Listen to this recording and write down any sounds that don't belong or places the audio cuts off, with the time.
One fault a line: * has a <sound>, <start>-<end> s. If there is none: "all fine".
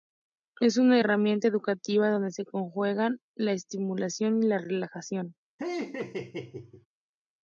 * has a laugh, 5.6-6.9 s